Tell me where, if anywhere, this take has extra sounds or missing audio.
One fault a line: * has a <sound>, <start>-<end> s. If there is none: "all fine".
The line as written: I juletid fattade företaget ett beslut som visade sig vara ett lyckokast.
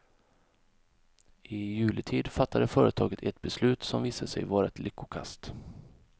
all fine